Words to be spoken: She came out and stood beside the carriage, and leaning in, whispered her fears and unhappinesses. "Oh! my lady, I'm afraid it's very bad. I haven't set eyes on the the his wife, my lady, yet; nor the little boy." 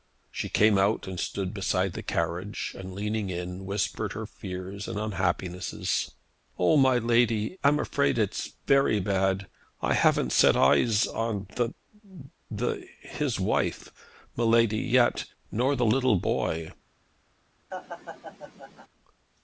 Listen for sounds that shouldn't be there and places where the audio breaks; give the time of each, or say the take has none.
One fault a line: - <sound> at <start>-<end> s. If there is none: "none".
- laugh at 17.7-18.9 s